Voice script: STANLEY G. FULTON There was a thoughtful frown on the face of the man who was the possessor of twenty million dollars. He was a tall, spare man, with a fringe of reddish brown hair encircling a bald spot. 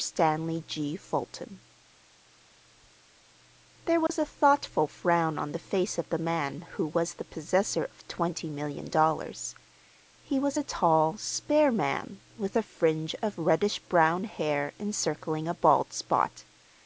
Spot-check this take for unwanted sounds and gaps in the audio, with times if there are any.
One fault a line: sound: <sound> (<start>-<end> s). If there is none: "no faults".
sound: dropout (4.1-4.1 s)